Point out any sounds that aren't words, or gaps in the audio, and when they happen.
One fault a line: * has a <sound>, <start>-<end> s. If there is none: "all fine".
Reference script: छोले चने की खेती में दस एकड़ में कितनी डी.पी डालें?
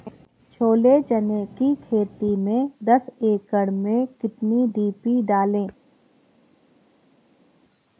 all fine